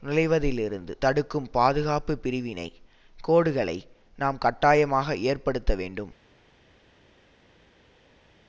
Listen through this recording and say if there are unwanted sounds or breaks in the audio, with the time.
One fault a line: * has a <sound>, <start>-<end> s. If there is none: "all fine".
all fine